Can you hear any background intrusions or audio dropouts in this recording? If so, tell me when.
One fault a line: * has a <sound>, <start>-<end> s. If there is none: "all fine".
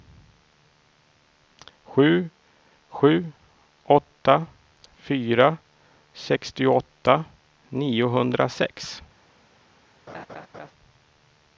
* has a laugh, 10.1-10.7 s